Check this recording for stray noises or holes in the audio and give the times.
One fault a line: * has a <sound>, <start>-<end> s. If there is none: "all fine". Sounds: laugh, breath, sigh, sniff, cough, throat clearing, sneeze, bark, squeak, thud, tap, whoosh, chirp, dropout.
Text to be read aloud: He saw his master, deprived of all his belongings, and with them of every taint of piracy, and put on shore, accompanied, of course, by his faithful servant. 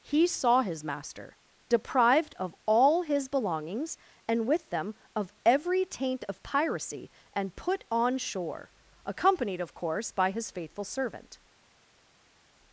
all fine